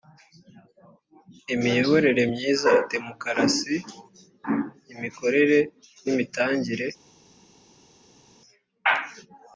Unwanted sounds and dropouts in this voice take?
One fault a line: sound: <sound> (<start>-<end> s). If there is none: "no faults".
no faults